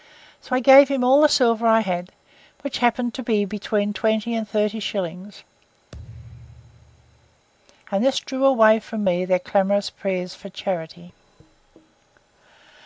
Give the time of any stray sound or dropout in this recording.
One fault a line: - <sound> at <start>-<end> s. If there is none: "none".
- thud at 5.9-7.5 s